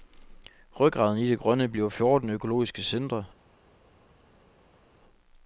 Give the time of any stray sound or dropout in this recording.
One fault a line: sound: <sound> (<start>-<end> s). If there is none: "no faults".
no faults